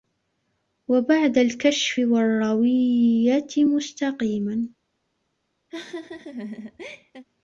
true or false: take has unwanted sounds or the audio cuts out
true